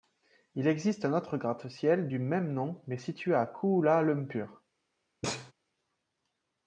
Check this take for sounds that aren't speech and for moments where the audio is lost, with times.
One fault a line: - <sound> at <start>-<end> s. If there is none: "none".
- sneeze at 5.2-5.5 s